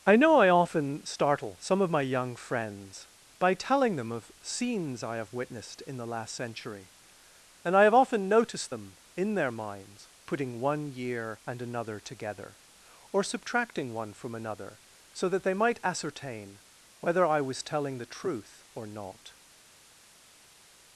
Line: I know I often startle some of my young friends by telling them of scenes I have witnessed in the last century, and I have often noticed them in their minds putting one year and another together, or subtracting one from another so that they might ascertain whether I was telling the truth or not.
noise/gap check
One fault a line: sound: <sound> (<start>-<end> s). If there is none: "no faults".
no faults